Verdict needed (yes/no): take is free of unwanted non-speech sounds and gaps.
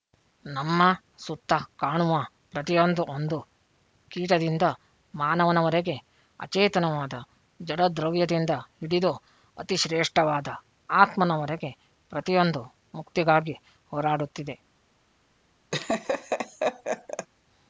no